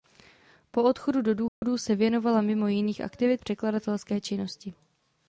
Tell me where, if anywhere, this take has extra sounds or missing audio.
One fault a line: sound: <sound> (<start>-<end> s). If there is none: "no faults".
sound: dropout (1.5-1.6 s)